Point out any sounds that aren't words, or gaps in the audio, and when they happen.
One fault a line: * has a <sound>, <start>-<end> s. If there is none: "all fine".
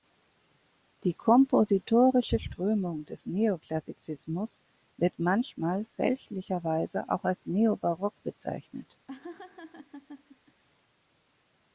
* has a laugh, 9.1-10.6 s